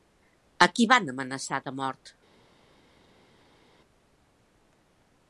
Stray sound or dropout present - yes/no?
no